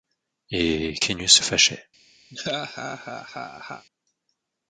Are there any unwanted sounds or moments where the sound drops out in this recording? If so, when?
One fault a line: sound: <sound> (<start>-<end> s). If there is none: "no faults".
sound: laugh (2.3-3.9 s)